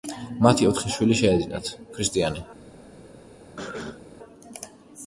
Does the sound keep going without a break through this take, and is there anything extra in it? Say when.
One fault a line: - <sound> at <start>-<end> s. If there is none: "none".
- cough at 3.6-4.0 s